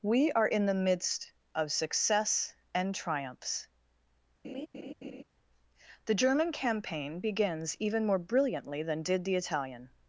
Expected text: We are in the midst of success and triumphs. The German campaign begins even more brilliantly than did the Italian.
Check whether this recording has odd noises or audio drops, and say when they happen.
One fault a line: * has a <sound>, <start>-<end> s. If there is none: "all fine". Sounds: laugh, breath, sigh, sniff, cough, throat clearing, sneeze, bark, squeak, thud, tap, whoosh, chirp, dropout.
* has a laugh, 4.4-5.2 s